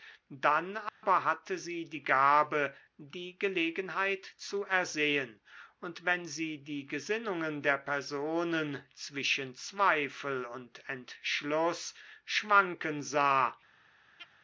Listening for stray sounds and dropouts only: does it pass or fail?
fail